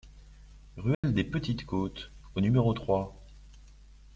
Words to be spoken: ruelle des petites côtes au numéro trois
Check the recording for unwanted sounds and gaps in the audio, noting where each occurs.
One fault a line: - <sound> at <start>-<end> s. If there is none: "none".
- dropout at 0.9-1.0 s